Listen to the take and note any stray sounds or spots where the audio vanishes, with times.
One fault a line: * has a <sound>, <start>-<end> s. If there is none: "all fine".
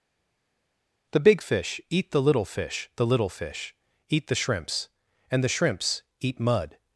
all fine